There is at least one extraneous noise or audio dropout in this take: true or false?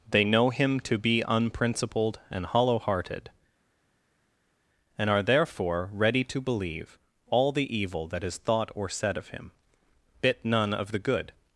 false